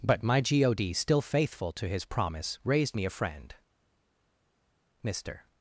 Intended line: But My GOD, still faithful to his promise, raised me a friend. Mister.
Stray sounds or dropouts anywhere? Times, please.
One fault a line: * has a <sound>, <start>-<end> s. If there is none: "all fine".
all fine